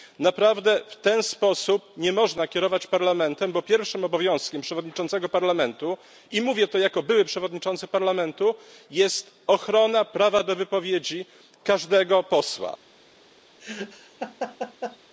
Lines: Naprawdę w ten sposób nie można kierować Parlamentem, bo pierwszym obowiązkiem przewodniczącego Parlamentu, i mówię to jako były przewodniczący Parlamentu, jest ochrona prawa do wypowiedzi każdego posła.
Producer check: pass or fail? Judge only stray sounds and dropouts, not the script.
fail